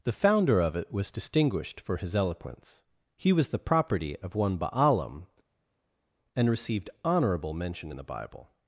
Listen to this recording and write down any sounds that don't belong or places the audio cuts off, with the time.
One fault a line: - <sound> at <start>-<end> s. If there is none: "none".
none